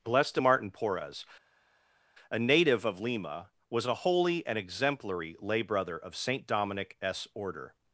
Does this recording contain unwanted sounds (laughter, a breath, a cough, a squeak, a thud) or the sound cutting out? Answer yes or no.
no